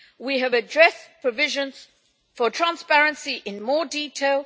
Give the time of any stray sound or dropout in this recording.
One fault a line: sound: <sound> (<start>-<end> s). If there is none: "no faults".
no faults